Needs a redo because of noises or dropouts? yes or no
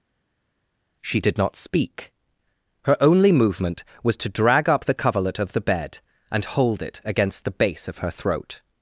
no